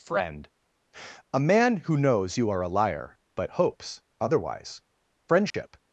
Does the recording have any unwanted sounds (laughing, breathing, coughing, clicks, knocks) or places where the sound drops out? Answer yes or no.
yes